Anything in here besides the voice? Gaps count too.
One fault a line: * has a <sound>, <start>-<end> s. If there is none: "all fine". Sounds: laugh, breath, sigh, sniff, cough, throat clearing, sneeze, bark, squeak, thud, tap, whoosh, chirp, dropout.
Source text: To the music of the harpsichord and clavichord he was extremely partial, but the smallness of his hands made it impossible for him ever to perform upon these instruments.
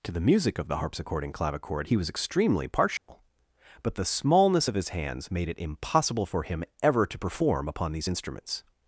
* has a dropout, 3.0-3.1 s